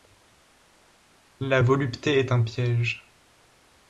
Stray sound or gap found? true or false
false